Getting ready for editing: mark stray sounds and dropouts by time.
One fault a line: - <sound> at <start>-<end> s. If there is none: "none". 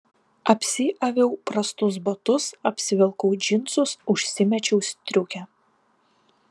none